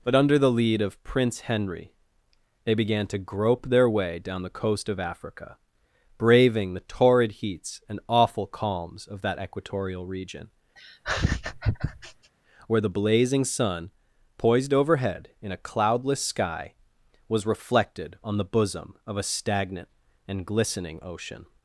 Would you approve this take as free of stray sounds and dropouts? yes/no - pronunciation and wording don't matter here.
no